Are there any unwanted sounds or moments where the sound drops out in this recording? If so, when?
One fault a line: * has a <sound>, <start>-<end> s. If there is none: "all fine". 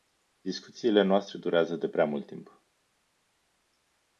all fine